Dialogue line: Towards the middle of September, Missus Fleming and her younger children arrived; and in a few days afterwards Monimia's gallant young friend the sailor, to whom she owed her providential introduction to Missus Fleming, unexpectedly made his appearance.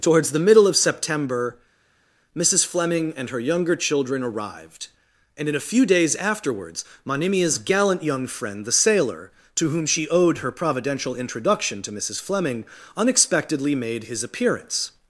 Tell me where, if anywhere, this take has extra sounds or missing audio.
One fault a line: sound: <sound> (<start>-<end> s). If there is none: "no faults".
no faults